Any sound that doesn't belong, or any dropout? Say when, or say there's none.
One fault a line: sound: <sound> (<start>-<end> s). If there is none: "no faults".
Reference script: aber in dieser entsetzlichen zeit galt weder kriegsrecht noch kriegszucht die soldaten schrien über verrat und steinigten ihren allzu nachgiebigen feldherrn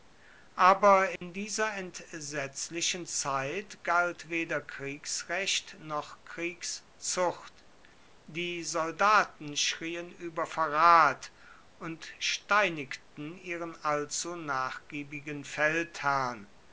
sound: dropout (1.2-1.2 s)